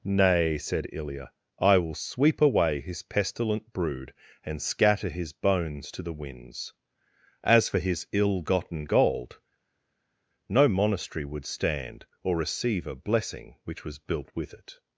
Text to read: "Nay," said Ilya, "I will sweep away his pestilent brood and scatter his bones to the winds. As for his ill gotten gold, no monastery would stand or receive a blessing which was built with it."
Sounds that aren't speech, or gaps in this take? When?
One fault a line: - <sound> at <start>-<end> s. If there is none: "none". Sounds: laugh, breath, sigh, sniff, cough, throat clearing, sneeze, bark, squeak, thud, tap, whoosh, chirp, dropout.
none